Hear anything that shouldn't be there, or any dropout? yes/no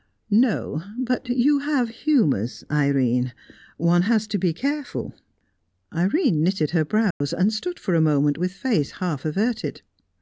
yes